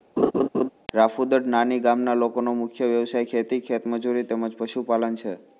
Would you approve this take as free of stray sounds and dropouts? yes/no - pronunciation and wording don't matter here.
no